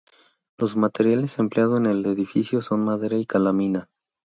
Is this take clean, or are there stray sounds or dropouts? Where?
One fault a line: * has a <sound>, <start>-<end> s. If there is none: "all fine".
all fine